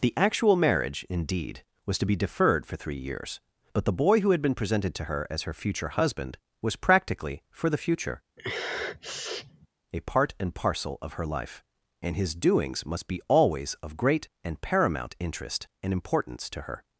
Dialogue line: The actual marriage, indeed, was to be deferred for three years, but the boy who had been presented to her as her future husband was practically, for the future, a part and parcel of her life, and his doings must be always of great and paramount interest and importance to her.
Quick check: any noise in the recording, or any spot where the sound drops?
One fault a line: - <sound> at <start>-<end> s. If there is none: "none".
- sniff at 8.4-9.7 s